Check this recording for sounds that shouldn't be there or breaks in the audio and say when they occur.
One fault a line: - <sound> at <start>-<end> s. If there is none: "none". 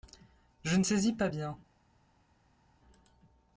none